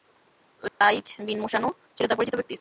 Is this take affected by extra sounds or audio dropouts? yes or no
yes